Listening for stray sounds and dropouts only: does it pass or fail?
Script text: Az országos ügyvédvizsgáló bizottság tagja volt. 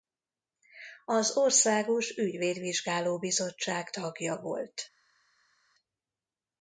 pass